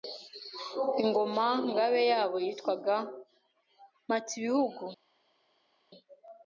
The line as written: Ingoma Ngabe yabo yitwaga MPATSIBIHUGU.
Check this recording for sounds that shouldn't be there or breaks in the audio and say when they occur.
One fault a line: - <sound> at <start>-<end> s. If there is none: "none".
none